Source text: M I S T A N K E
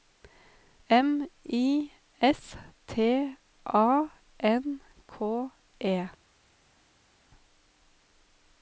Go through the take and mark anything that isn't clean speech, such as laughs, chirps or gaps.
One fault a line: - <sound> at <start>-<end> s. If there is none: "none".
none